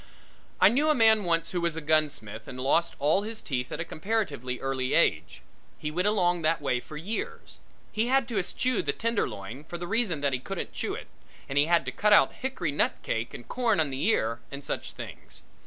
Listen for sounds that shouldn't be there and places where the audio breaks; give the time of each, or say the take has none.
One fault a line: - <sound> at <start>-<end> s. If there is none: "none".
none